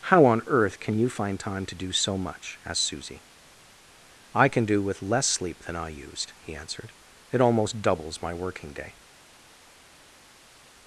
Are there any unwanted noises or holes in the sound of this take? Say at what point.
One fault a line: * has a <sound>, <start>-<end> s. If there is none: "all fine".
all fine